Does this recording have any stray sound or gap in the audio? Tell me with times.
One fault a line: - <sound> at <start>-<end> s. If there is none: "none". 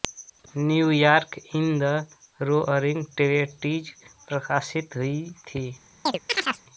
- chirp at 6.1-6.6 s